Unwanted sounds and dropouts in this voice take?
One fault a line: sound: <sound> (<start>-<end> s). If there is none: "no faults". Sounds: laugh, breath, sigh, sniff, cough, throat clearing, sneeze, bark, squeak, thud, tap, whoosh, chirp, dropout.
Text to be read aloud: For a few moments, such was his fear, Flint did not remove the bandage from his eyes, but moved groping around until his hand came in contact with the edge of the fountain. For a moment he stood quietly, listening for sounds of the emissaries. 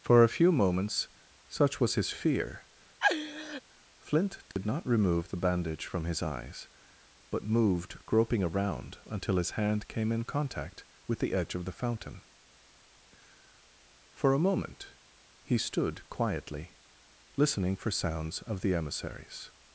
sound: laugh (3.0-3.6 s)
sound: dropout (4.5-4.6 s)